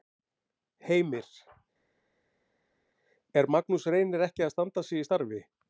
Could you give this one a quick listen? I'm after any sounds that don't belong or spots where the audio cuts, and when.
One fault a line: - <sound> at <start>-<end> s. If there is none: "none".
none